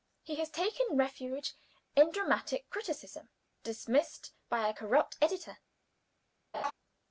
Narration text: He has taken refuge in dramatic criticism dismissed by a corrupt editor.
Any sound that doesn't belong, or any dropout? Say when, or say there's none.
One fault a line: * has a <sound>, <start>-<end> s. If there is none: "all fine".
* has a laugh, 6.5-6.7 s